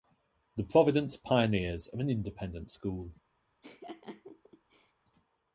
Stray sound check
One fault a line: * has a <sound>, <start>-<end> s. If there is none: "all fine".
* has a laugh, 3.6-4.9 s